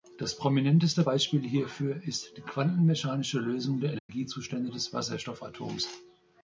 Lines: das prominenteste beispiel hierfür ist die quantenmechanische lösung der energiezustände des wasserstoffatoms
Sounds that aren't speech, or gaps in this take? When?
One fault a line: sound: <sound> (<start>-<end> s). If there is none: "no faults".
sound: dropout (4.0-4.1 s)